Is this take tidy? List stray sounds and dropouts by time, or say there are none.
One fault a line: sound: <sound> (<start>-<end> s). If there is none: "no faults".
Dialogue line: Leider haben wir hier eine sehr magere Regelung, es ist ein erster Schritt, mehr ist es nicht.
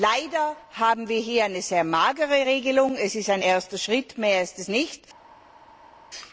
no faults